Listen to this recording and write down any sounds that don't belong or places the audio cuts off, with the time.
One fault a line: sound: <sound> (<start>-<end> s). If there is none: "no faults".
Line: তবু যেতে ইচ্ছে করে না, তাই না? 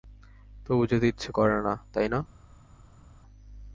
no faults